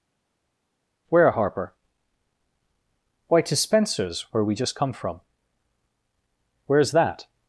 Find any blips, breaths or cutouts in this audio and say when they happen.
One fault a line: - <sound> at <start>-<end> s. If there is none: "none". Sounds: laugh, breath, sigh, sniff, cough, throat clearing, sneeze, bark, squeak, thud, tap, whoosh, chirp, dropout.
none